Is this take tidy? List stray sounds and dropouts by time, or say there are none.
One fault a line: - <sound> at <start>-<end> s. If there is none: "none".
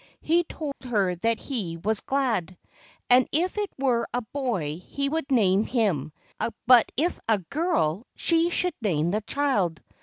- dropout at 0.7-0.8 s